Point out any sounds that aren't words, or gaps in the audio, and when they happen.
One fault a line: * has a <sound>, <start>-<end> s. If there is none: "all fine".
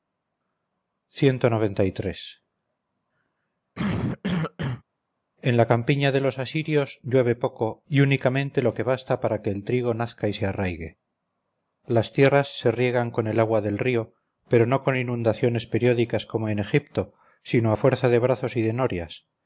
* has a cough, 3.7-4.8 s